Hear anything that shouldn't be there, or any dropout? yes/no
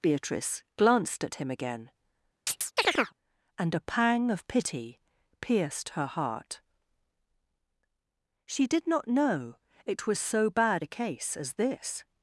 yes